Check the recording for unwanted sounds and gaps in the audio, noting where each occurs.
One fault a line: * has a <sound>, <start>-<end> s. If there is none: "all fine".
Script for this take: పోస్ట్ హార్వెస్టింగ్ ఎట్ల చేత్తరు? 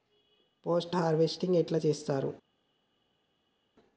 all fine